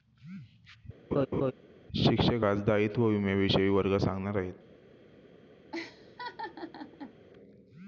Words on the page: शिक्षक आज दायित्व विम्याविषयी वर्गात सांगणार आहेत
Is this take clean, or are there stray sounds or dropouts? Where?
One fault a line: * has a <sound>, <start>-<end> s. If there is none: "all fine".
* has a laugh, 1.1-1.5 s
* has a laugh, 5.7-7.1 s